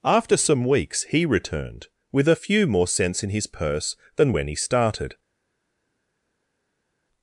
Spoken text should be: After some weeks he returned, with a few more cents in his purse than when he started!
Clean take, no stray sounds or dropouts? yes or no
yes